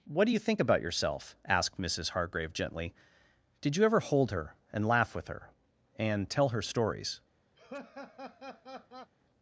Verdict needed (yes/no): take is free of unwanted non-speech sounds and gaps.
no